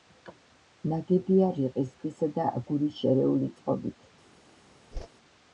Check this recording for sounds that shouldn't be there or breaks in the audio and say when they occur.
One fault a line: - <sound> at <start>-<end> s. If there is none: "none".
- whoosh at 4.9-5.1 s